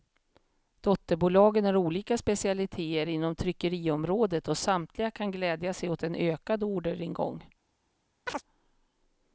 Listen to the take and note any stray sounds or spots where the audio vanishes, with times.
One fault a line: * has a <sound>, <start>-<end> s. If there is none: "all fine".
* has a chirp, 8.3-8.4 s